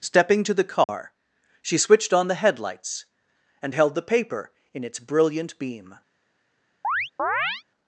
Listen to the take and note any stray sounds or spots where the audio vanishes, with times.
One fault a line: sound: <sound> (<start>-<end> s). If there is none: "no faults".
sound: dropout (0.8-0.9 s)
sound: chirp (6.8-7.6 s)